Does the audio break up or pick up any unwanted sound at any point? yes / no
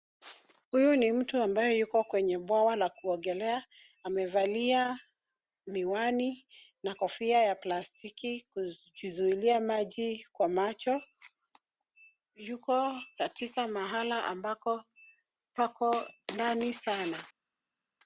no